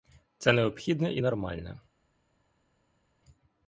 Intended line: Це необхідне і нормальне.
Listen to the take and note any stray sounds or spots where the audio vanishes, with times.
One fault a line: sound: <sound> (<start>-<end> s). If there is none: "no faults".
no faults